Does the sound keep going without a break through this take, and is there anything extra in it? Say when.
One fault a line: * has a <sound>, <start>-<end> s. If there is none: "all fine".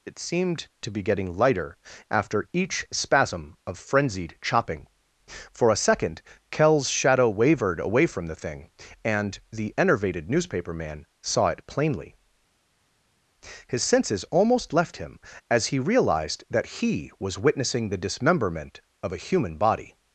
all fine